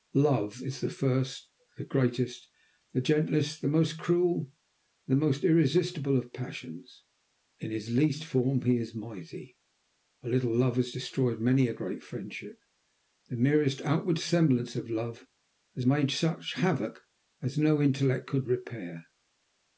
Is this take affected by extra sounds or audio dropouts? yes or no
no